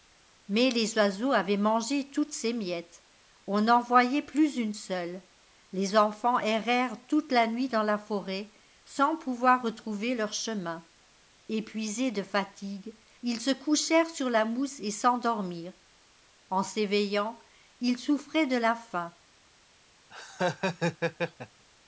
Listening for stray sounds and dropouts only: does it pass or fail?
fail